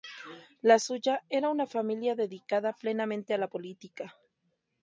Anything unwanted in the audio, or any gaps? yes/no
no